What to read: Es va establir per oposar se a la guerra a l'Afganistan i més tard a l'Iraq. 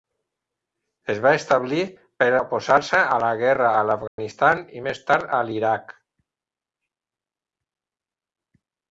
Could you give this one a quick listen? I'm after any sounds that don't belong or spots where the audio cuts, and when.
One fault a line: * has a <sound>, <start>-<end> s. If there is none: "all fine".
* has a dropout, 4.1-4.2 s